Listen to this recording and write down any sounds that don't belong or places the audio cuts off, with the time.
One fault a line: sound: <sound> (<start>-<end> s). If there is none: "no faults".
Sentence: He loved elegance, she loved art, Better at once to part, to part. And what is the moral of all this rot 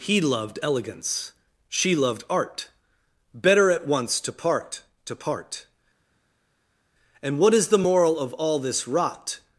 no faults